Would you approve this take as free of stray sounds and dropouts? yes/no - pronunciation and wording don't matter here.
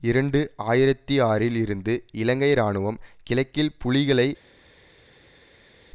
yes